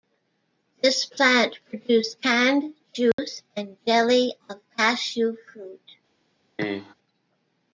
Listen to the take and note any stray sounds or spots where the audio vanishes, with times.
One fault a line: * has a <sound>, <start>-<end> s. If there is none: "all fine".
* has a dropout, 3.1-3.2 s
* has a cough, 6.6-6.9 s